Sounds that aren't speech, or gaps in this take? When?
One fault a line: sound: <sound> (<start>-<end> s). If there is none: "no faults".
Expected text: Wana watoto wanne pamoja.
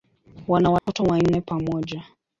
sound: dropout (0.8-0.9 s)